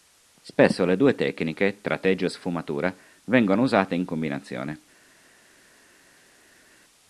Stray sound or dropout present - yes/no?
no